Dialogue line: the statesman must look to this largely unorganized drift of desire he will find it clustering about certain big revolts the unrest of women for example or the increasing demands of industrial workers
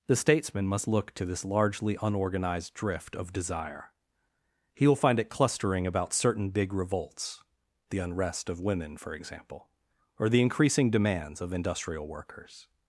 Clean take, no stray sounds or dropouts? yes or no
yes